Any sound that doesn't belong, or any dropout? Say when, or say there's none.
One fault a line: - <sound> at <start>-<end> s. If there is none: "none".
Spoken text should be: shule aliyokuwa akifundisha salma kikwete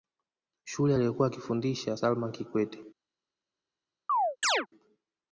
- chirp at 4.1-4.7 s